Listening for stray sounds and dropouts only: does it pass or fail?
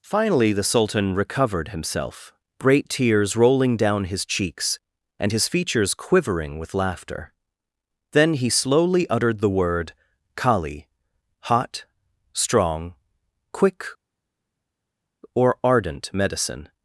pass